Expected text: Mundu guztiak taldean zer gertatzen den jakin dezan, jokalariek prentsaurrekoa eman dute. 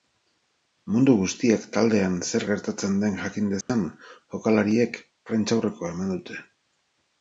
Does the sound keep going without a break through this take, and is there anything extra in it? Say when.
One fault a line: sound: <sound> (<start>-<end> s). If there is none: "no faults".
sound: dropout (3.6-3.7 s)